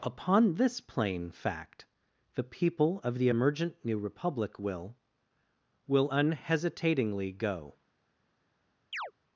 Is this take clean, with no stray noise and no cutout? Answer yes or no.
no